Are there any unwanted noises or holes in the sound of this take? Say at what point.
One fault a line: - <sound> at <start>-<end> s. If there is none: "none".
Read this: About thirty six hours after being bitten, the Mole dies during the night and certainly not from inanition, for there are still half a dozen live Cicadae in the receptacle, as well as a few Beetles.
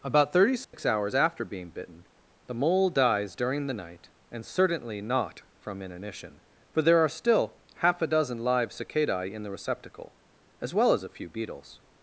- dropout at 0.6-0.7 s